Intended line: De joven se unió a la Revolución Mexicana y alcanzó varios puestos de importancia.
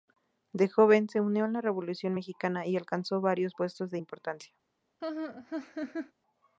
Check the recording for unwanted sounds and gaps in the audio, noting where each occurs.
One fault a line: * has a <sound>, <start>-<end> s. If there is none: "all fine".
* has a laugh, 5.0-6.1 s